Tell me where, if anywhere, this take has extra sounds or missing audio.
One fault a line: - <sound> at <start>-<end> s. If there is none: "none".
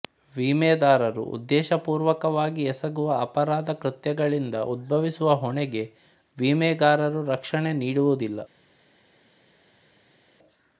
none